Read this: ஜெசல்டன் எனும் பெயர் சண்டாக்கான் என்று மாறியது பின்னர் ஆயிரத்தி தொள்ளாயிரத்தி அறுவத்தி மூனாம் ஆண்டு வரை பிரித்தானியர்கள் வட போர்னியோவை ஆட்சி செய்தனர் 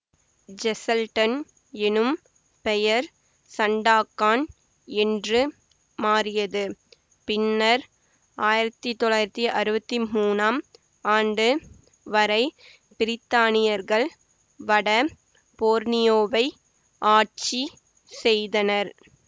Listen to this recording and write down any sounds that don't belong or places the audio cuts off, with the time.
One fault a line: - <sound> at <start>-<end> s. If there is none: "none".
none